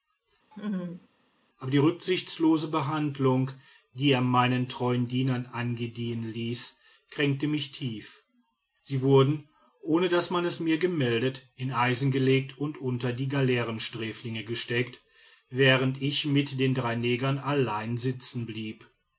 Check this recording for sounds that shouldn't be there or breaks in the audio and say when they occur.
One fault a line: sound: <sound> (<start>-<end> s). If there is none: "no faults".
sound: laugh (0.5-1.1 s)